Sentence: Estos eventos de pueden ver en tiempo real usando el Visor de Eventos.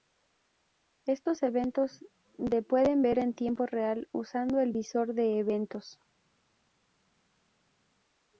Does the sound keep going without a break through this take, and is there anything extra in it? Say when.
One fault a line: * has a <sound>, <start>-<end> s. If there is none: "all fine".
all fine